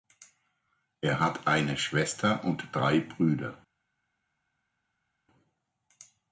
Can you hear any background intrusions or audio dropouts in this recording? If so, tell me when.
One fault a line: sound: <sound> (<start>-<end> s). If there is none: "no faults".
no faults